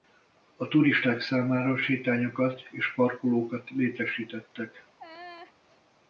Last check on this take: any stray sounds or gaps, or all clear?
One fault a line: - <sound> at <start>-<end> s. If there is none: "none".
- laugh at 5.0-5.5 s